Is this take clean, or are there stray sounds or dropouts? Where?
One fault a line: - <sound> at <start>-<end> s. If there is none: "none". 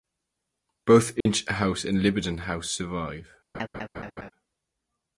- dropout at 1.2-1.3 s
- laugh at 3.5-4.3 s